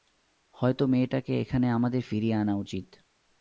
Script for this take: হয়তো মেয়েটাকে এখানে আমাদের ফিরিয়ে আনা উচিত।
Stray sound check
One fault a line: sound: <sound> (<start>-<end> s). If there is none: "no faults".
no faults